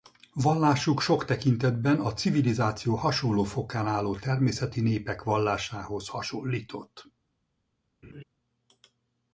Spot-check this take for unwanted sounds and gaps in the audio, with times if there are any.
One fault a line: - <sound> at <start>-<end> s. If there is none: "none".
- laugh at 8.0-8.2 s